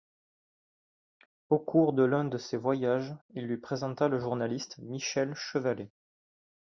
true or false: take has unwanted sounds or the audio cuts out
false